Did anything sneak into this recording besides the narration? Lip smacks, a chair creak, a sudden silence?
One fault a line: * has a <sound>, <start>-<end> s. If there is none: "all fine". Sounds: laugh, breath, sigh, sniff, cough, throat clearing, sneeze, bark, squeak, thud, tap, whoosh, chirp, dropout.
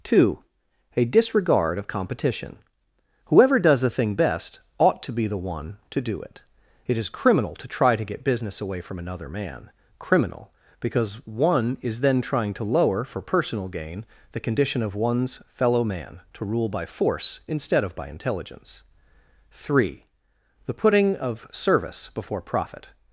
all fine